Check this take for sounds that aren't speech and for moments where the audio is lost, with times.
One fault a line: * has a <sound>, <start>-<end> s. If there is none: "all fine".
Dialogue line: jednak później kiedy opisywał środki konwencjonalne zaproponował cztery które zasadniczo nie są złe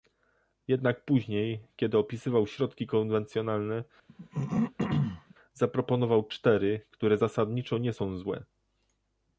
* has a throat clearing, 4.1-5.3 s